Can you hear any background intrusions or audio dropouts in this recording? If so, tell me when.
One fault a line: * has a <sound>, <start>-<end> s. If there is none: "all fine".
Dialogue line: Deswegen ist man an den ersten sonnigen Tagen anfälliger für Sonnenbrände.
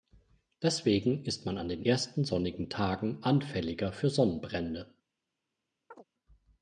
* has a chirp, 5.9-6.0 s